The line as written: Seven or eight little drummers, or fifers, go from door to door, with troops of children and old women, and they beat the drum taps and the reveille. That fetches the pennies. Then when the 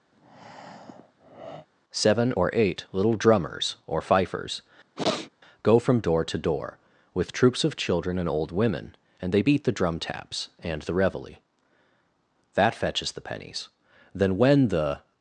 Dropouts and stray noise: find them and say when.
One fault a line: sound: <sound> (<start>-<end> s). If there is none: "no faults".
sound: breath (0.1-1.7 s)
sound: sniff (5.0-5.3 s)